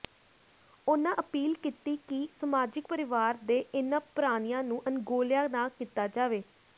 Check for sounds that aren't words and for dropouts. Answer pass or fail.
pass